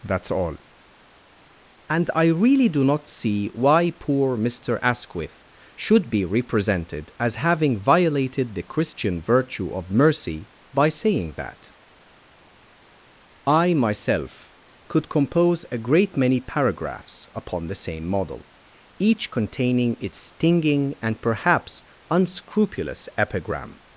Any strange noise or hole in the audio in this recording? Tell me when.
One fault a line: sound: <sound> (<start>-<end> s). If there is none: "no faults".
no faults